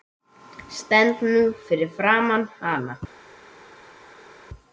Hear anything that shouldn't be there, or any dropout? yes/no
no